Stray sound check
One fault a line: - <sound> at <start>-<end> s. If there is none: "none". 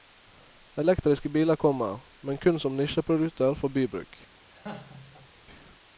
- laugh at 4.5-5.3 s